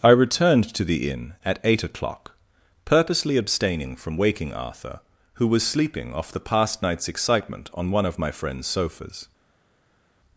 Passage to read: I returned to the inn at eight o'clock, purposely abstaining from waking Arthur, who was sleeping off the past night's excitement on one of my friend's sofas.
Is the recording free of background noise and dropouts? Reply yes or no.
yes